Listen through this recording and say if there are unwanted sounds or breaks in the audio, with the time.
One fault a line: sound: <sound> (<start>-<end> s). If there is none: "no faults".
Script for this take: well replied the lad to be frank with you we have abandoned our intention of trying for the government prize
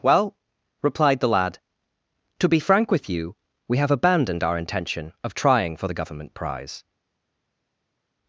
no faults